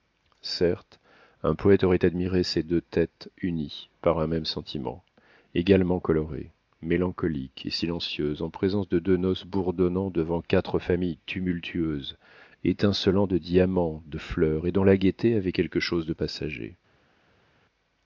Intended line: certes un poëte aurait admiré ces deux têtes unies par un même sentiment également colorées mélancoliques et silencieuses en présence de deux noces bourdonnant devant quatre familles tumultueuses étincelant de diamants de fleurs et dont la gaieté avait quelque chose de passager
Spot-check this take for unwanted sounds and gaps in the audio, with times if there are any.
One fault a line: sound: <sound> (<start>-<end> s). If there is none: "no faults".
no faults